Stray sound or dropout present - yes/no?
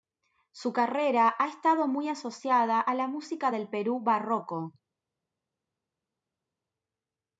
no